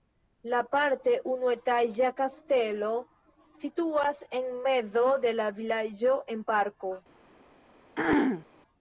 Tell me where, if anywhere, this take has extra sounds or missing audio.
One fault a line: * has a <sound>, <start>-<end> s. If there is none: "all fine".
* has a throat clearing, 7.9-8.4 s